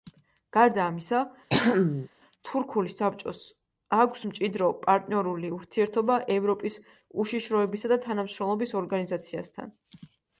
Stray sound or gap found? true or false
true